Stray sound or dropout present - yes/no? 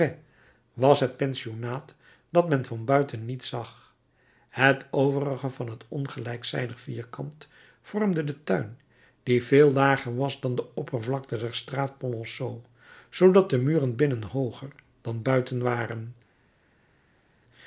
no